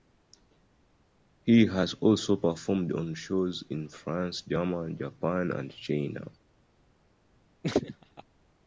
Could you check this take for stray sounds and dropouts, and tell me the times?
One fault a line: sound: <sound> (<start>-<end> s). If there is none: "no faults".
sound: laugh (7.6-8.2 s)